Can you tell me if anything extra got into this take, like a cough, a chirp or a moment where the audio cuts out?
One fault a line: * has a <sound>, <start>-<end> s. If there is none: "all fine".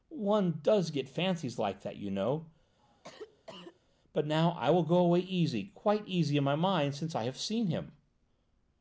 * has a cough, 2.8-3.8 s